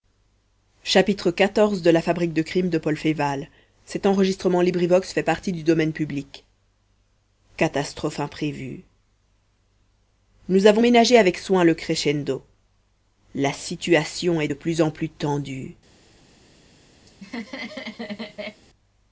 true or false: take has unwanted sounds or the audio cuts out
true